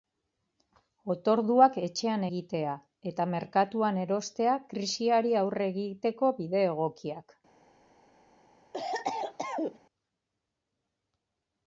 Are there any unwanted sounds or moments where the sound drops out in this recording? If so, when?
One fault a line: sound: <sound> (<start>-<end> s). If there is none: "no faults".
sound: cough (8.7-9.8 s)